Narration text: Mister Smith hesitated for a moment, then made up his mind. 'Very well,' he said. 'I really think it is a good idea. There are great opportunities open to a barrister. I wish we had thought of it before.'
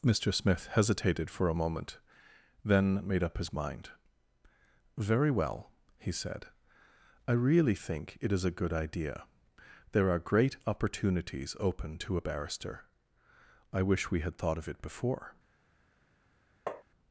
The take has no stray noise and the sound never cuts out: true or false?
false